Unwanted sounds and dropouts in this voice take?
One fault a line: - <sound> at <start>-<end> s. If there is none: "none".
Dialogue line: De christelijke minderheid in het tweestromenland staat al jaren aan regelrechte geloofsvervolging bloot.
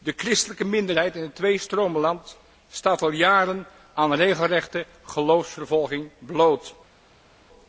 none